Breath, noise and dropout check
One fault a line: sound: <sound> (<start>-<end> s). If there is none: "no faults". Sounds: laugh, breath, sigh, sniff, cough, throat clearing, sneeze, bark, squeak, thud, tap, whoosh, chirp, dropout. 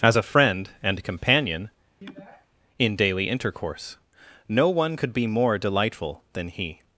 sound: sniff (2.0-2.5 s)